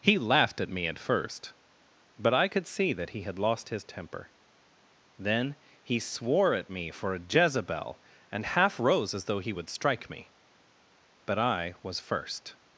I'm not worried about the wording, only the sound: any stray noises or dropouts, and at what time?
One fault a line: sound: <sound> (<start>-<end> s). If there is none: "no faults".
no faults